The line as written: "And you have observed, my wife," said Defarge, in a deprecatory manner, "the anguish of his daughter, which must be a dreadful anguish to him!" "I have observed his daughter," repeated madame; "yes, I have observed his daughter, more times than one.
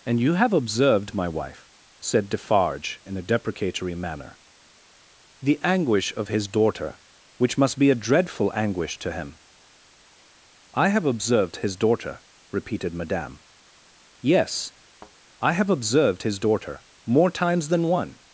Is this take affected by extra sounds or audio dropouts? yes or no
yes